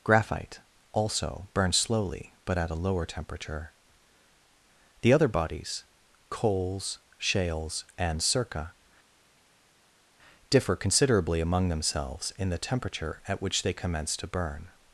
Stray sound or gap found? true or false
false